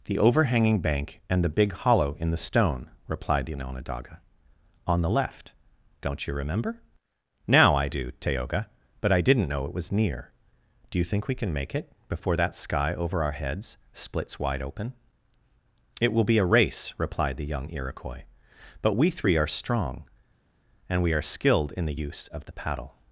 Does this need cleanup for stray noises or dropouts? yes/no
no